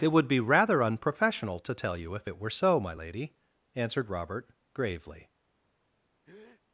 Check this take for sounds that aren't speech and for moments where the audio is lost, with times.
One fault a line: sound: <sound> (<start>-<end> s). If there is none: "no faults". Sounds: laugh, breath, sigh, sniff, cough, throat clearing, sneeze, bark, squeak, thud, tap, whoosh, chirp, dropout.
sound: breath (6.2-6.6 s)